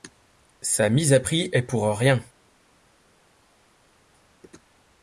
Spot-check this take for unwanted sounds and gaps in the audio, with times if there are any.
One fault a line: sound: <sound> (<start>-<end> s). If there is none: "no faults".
no faults